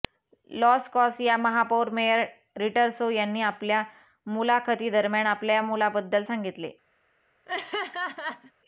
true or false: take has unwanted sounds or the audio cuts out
true